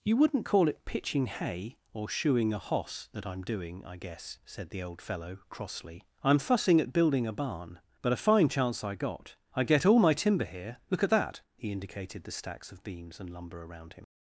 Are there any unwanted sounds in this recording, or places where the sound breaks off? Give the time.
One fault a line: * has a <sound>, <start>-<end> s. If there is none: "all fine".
all fine